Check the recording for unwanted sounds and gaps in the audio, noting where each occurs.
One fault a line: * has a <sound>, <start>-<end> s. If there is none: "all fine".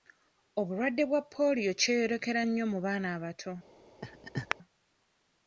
* has a laugh, 4.0-4.6 s